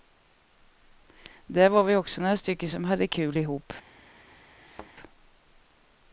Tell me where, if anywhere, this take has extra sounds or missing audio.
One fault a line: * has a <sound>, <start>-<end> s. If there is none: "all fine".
* has a thud, 4.6-4.9 s